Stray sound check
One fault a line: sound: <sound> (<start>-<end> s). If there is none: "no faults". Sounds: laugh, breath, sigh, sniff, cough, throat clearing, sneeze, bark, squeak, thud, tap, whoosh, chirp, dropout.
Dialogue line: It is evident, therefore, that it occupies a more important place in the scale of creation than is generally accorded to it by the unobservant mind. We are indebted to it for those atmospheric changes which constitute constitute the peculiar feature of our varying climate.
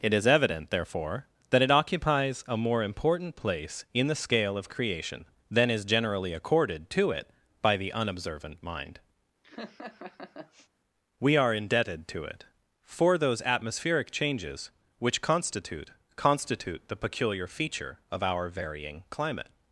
sound: laugh (9.4-10.7 s)